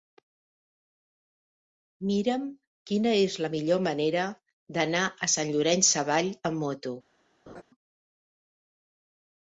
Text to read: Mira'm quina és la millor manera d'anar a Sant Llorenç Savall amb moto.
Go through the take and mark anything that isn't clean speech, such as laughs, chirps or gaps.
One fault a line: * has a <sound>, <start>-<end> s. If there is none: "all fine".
* has a laugh, 7.5-7.6 s